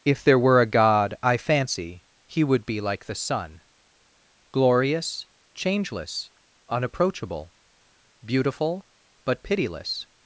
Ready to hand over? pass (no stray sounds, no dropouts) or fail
pass